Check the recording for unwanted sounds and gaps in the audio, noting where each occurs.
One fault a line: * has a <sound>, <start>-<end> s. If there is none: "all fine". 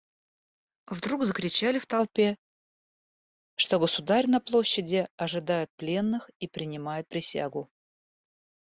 all fine